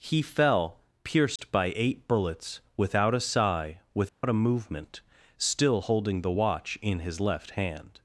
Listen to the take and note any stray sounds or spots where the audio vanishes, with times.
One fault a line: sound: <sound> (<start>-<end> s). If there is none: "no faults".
sound: dropout (1.4-1.4 s)
sound: dropout (4.1-4.2 s)